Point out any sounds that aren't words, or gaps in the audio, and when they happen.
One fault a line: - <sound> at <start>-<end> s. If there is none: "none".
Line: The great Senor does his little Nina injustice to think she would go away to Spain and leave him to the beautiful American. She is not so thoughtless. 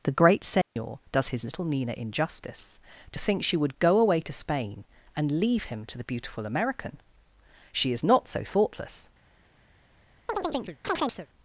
- dropout at 0.6-0.8 s
- chirp at 10.3-11.3 s